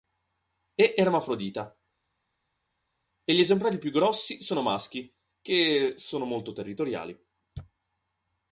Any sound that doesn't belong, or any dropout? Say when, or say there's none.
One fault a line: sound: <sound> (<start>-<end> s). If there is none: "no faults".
no faults